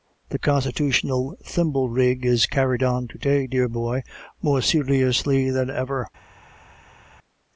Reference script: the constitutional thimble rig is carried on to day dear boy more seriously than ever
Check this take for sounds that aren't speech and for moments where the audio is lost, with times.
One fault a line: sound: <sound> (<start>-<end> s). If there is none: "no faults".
no faults